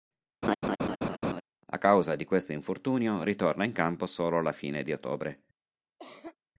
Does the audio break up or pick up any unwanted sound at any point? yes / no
yes